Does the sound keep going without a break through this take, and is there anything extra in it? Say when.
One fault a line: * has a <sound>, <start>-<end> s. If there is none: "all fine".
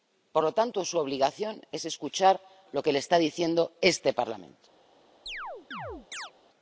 * has a chirp, 5.3-6.3 s